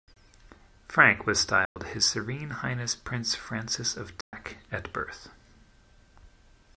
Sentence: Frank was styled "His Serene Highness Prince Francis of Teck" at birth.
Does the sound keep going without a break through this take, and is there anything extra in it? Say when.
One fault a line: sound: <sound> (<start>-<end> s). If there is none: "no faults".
sound: dropout (1.7-1.8 s)
sound: dropout (4.2-4.3 s)